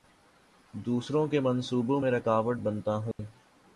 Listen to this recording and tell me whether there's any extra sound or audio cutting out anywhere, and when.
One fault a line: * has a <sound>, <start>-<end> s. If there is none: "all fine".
* has a dropout, 3.1-3.2 s